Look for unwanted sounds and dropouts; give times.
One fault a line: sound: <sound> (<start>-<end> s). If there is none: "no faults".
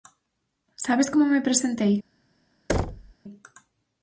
sound: thud (2.7-3.1 s)